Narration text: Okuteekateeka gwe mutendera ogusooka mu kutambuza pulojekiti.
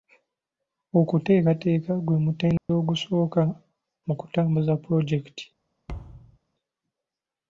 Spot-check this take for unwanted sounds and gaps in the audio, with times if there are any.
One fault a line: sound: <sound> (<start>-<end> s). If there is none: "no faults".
sound: dropout (2.6-2.7 s)
sound: thud (5.9-6.4 s)